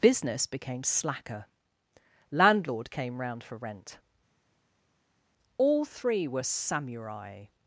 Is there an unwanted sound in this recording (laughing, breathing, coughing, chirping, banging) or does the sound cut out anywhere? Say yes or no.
no